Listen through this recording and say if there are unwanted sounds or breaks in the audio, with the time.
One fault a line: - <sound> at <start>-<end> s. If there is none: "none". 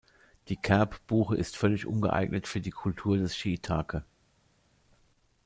none